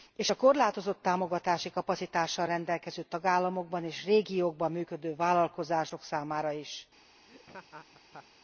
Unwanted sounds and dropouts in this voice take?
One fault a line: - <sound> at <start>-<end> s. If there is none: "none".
- laugh at 7.3-8.3 s